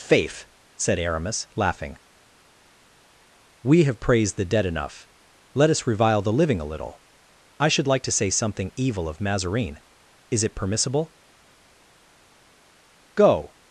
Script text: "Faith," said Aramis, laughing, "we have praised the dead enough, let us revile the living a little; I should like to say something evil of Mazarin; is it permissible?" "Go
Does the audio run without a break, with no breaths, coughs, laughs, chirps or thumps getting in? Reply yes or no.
yes